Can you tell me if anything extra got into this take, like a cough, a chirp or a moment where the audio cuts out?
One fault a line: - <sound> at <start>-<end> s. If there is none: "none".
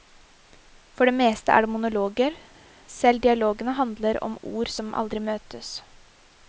none